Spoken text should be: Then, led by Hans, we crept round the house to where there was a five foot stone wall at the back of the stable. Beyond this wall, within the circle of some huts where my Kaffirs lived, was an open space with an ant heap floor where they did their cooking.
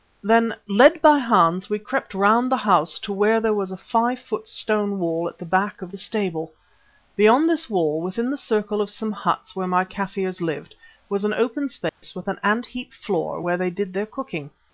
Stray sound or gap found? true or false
true